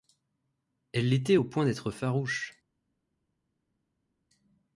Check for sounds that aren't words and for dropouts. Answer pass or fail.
pass